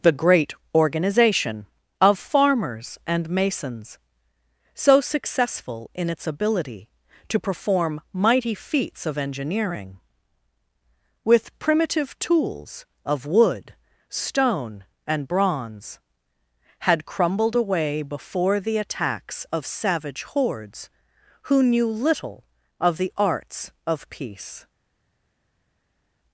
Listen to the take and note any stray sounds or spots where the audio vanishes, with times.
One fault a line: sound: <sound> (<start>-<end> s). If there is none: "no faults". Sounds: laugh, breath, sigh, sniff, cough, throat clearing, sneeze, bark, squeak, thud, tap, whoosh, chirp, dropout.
no faults